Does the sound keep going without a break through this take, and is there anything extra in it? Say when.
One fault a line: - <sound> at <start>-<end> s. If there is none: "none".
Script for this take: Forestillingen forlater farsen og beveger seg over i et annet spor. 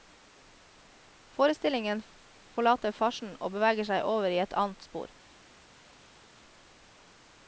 none